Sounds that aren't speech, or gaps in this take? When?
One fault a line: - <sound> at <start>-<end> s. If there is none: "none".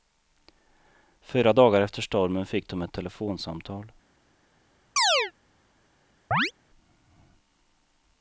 - chirp at 5.0-5.3 s
- chirp at 6.3-6.5 s